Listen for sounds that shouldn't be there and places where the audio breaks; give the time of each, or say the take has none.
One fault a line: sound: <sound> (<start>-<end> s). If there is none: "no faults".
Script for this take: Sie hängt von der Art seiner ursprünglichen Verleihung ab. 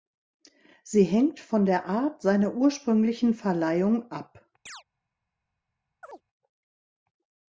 sound: chirp (4.7-4.8 s)
sound: chirp (6.0-6.2 s)